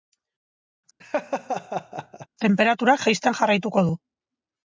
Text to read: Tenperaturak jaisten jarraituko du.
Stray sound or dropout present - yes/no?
yes